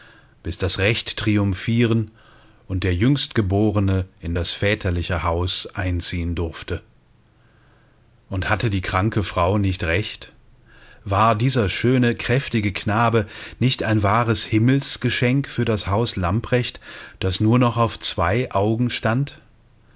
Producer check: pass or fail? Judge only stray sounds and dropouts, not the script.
pass